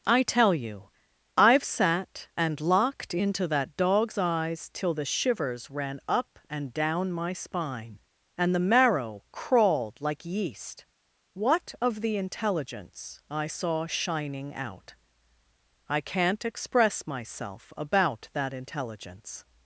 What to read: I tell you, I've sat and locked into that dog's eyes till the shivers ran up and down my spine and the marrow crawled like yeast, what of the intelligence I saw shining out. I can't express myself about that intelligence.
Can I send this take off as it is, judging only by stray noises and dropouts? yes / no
yes